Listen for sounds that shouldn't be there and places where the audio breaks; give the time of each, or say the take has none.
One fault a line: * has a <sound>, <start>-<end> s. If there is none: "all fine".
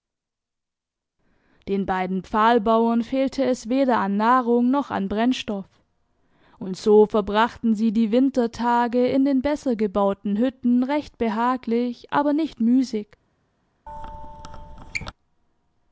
* has a squeak, 13.9-15.1 s